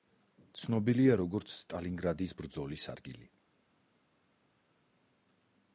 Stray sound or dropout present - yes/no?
no